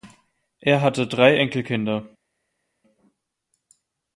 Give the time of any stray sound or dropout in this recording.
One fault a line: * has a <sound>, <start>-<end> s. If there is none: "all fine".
all fine